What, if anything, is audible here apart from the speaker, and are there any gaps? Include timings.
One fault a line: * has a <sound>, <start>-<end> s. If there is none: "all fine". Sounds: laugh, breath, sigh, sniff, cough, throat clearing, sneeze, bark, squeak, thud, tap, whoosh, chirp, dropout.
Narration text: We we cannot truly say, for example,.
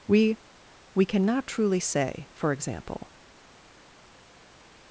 all fine